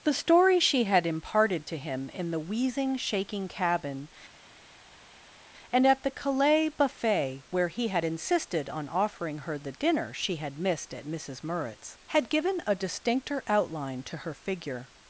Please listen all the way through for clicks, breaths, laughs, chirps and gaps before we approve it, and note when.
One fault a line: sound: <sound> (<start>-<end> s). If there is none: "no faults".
no faults